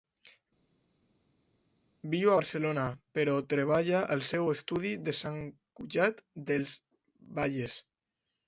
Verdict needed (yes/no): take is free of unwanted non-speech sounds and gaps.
yes